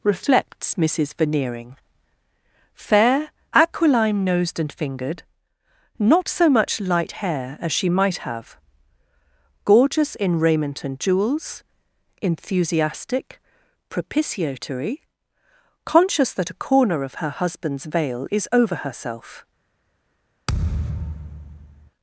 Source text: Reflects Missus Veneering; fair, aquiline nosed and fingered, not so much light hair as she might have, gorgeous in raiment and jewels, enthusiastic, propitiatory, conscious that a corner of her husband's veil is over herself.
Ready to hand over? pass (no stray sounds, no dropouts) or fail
fail